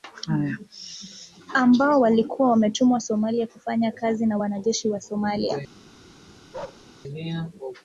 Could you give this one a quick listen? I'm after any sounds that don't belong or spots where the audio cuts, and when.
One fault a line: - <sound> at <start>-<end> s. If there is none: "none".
- bark at 6.5-6.9 s